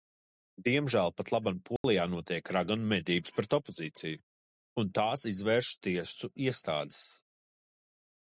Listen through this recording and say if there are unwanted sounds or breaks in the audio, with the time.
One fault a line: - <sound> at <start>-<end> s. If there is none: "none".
- dropout at 1.8-1.8 s